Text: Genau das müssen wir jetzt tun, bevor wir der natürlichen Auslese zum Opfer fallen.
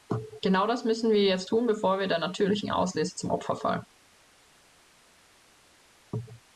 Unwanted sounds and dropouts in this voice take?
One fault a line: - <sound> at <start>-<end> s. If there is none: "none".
none